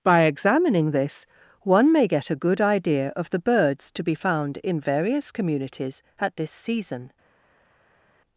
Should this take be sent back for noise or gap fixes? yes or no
no